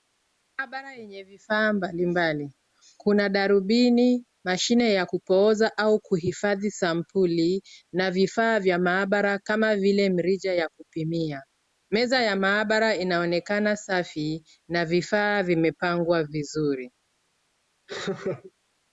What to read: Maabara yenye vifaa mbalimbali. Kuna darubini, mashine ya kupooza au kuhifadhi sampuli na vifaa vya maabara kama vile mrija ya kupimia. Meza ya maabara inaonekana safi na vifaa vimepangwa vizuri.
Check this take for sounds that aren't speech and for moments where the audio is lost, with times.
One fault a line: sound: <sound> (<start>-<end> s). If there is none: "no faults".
sound: laugh (17.9-18.5 s)